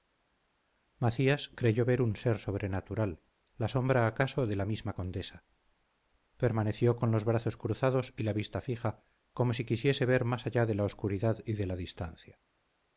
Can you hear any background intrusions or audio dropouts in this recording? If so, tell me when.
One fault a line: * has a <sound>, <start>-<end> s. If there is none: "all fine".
all fine